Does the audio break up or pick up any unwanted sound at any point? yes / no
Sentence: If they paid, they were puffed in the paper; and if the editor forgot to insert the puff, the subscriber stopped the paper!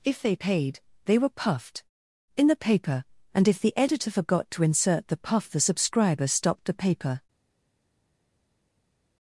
no